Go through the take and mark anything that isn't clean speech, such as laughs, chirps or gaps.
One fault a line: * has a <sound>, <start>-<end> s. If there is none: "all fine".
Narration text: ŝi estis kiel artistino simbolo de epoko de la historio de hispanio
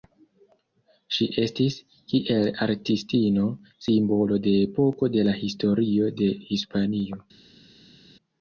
all fine